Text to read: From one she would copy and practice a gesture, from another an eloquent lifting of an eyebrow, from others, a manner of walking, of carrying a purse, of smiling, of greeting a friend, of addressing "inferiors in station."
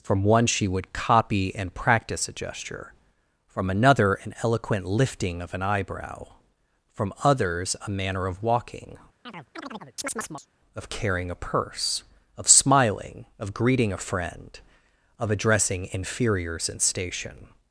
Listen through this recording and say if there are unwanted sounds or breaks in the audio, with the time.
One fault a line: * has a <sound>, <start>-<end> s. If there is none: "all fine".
* has a chirp, 9.3-10.5 s